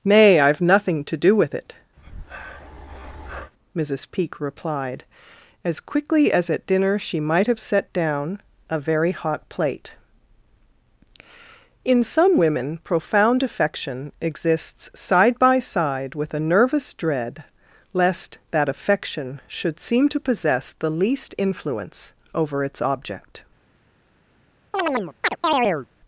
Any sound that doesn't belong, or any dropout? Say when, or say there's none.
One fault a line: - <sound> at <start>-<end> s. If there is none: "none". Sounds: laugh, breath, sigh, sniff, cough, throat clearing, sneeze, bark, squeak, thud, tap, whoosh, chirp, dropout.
- breath at 2.0-3.5 s
- chirp at 24.7-25.9 s